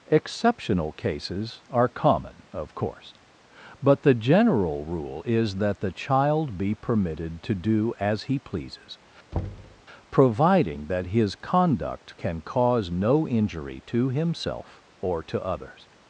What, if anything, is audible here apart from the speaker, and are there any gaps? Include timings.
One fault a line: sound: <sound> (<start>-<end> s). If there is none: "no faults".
sound: thud (9.3-9.8 s)